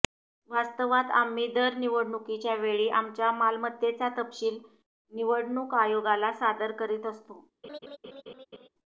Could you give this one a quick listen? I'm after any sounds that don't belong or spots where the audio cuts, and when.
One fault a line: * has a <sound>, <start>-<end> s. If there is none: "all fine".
* has a laugh, 7.6-8.7 s